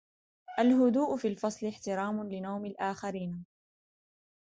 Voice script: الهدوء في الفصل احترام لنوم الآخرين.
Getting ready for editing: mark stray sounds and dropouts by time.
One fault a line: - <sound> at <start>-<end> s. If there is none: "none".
none